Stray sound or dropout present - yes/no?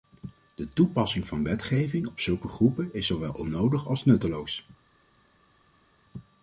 no